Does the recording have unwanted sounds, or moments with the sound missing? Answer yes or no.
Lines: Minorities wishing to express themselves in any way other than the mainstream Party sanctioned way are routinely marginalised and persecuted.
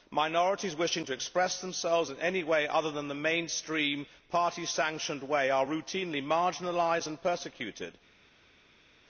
no